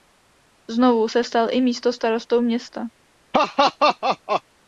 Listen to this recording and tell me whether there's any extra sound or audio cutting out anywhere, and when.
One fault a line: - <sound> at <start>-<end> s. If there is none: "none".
- laugh at 3.3-4.4 s